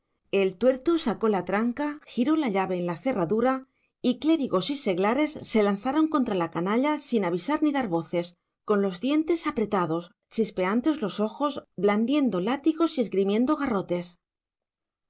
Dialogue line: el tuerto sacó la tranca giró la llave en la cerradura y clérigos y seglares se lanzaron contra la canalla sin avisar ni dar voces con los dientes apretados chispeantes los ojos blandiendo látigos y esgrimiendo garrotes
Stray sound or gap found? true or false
false